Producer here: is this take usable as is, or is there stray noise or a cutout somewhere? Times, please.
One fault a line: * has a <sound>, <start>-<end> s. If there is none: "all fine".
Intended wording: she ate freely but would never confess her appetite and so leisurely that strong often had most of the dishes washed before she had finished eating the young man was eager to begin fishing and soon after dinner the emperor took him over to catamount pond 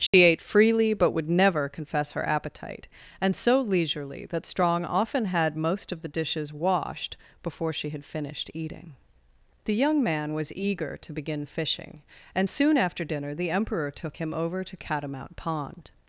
* has a dropout, 0.1-0.1 s